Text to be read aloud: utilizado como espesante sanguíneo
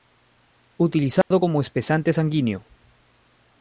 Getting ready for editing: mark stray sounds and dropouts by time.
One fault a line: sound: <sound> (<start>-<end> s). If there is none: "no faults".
sound: dropout (1.2-1.3 s)